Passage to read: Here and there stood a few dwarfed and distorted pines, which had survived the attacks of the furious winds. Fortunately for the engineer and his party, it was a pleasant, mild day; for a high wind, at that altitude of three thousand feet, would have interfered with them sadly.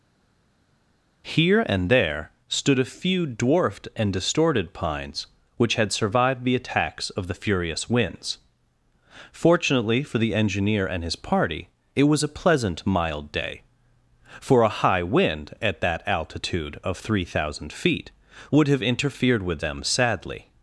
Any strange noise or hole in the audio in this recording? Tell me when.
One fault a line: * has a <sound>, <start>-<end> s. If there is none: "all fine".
all fine